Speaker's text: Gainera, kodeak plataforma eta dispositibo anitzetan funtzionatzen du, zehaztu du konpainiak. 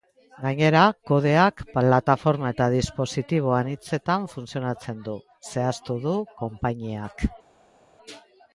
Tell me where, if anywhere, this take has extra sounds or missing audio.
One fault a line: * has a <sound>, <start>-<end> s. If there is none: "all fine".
all fine